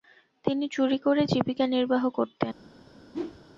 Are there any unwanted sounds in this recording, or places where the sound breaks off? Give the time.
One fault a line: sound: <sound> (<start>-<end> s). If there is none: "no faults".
sound: whoosh (3.1-3.4 s)